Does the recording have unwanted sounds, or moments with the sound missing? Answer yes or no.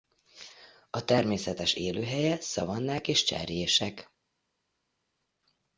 no